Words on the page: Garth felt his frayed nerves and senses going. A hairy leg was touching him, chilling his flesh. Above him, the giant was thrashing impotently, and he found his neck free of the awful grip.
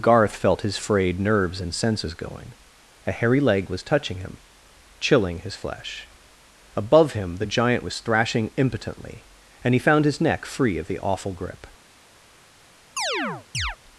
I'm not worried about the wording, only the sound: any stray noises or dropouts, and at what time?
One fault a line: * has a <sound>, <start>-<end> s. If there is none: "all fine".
* has a chirp, 13.0-13.8 s